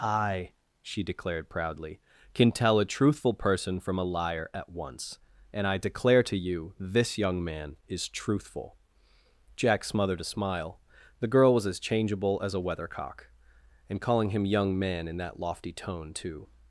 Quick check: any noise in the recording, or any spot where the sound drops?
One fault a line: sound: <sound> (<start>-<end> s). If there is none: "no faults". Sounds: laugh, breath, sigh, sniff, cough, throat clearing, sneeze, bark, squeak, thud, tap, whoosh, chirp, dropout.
no faults